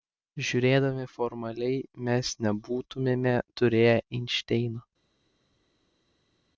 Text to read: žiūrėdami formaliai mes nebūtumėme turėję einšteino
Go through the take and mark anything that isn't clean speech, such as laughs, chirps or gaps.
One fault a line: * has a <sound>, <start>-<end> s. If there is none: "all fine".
all fine